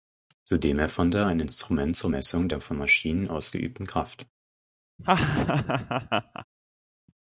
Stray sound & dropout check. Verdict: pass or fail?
fail